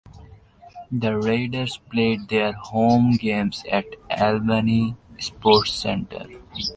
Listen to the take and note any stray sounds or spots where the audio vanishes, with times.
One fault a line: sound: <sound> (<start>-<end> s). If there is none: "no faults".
no faults